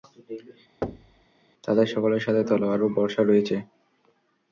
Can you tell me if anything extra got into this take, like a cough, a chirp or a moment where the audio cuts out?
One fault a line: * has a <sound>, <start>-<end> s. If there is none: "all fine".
* has a thud, 0.8-1.3 s